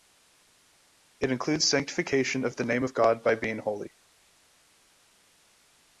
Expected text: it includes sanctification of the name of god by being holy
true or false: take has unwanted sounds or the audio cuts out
false